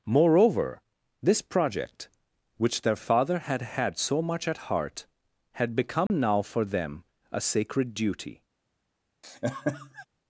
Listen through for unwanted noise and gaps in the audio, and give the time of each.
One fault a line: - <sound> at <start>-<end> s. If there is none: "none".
- dropout at 6.1-6.1 s
- laugh at 9.2-10.1 s